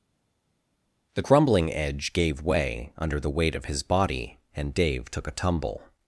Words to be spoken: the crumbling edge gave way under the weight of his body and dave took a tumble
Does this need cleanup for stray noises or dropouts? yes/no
no